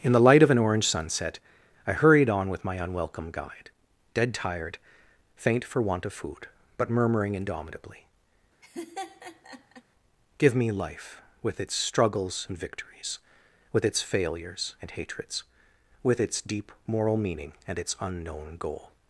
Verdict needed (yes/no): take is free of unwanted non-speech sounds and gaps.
no